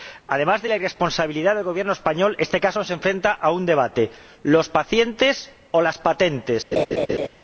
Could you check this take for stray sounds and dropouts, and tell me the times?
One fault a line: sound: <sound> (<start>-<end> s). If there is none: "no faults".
sound: laugh (6.7-7.3 s)